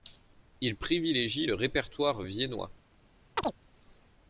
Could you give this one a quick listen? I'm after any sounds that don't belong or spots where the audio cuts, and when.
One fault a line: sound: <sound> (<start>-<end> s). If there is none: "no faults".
sound: chirp (3.4-3.6 s)